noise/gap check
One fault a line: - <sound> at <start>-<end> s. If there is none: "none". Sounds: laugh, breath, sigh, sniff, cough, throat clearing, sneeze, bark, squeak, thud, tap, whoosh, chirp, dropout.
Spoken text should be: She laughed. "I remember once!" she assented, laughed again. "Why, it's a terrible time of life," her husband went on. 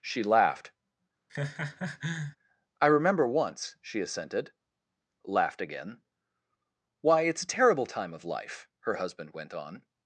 - laugh at 1.3-2.4 s